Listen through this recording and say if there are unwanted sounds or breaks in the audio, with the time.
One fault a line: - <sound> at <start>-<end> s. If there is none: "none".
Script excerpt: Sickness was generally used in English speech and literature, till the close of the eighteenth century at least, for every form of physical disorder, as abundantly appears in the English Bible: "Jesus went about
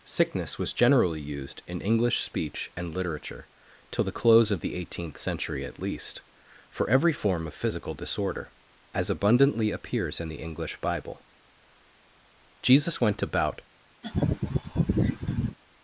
- laugh at 14.0-15.6 s